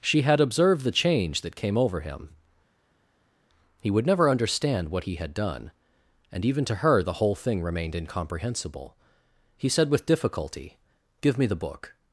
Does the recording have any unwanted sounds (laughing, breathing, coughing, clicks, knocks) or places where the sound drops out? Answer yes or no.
no